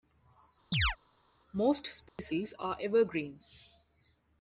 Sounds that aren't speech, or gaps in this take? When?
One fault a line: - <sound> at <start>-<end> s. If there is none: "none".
- chirp at 0.7-1.0 s
- dropout at 2.1-2.2 s